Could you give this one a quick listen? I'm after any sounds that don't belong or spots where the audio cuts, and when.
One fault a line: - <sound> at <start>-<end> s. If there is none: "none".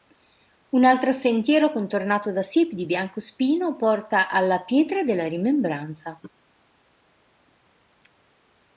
none